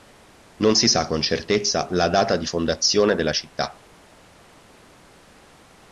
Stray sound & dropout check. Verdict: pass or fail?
pass